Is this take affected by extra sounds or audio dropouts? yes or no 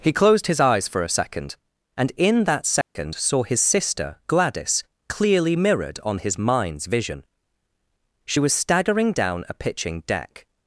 yes